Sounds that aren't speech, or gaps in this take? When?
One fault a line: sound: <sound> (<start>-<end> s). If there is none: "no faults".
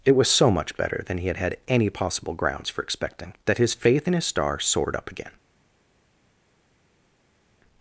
no faults